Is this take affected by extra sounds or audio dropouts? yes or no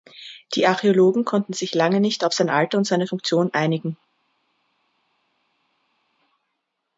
no